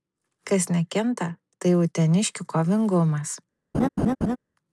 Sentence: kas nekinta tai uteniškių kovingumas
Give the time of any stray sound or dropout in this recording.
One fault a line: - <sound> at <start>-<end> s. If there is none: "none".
- laugh at 3.7-4.4 s